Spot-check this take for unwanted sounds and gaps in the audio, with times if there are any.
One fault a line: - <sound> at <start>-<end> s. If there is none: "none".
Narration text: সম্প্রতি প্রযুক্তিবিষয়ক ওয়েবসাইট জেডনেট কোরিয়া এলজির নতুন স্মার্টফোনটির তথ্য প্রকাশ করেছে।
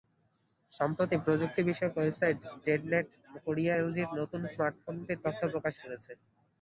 none